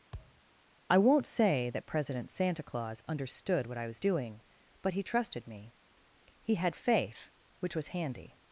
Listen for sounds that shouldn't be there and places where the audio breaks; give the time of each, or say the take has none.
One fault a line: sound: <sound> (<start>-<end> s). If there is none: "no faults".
sound: thud (0.1-0.4 s)